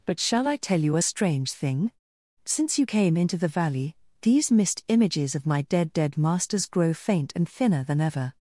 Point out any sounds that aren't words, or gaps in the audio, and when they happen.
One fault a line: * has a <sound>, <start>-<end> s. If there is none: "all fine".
all fine